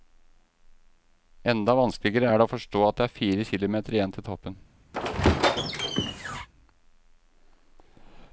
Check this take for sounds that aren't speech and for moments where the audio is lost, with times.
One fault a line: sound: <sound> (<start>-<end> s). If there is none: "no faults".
sound: squeak (4.9-6.5 s)